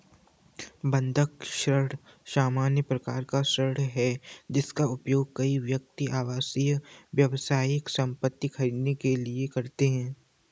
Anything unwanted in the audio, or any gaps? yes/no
no